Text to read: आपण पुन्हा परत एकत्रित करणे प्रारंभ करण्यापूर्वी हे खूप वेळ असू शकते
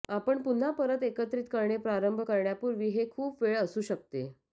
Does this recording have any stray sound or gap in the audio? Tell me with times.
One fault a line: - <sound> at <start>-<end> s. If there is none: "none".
none